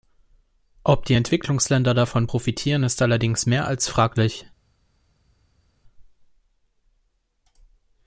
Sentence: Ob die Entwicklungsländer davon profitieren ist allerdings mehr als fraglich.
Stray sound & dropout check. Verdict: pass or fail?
pass